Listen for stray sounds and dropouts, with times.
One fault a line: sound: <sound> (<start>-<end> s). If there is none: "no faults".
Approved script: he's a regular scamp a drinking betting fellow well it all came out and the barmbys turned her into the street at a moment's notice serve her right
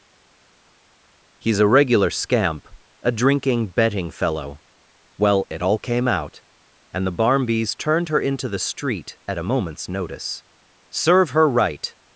no faults